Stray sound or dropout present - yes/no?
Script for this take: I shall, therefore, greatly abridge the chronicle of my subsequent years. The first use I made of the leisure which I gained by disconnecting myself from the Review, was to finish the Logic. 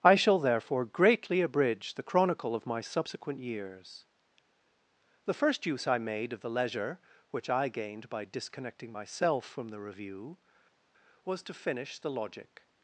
no